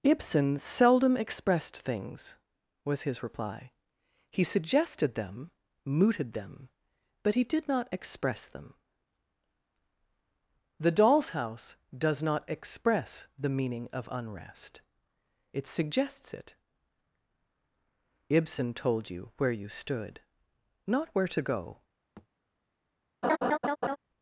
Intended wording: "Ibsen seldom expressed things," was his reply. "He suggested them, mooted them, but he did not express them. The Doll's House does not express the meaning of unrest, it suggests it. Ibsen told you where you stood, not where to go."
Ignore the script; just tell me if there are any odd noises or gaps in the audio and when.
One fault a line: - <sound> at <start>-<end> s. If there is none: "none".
- thud at 22.2-22.3 s
- laugh at 23.2-24.0 s